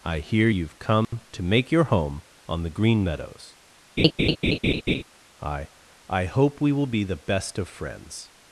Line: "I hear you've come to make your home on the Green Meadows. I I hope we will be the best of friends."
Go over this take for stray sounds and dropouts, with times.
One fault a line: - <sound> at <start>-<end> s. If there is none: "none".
- dropout at 1.0-1.1 s
- laugh at 4.0-5.0 s